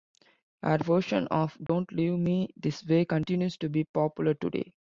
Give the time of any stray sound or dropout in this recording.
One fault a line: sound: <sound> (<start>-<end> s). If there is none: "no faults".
sound: dropout (1.7-1.7 s)